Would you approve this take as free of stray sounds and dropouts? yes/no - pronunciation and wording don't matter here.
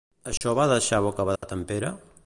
no